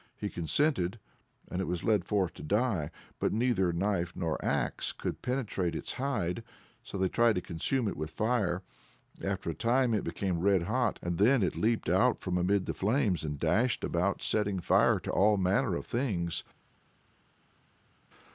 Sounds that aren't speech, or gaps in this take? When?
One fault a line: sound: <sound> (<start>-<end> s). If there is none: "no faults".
no faults